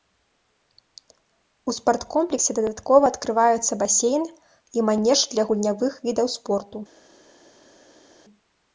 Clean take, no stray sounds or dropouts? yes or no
yes